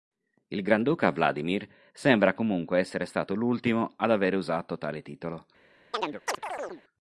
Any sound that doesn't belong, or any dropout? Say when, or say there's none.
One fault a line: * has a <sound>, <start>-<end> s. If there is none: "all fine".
* has a chirp, 5.9-6.8 s